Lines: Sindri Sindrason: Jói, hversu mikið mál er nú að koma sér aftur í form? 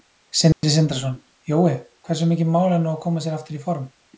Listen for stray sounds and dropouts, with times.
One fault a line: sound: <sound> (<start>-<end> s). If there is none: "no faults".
sound: dropout (0.5-0.6 s)